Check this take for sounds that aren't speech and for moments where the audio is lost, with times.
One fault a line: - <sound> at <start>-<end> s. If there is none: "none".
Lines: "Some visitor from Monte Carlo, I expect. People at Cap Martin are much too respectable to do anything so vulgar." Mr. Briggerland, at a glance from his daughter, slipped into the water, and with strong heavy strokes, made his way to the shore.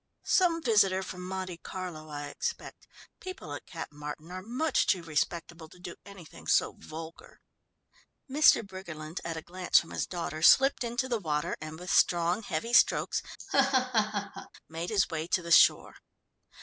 - laugh at 13.4-14.5 s